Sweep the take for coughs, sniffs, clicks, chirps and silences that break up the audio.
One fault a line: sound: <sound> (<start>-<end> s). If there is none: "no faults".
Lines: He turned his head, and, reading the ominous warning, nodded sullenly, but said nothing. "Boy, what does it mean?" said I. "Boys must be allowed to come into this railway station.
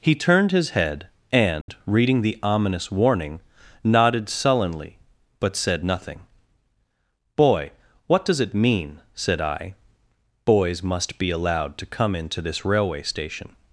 sound: dropout (1.6-1.7 s)